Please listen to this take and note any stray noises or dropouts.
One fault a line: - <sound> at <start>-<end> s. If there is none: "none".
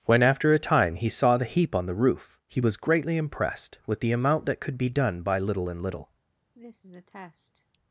- cough at 6.6-7.8 s